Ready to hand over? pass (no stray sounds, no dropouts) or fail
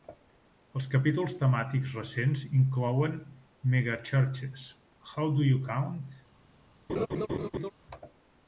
fail